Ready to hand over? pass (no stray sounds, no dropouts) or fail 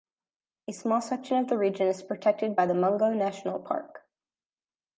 pass